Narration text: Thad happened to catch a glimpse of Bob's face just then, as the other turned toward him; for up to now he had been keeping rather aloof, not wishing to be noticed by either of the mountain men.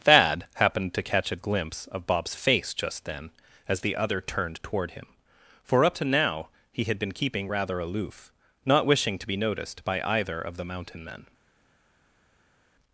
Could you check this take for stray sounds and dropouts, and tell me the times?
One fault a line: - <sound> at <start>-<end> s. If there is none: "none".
none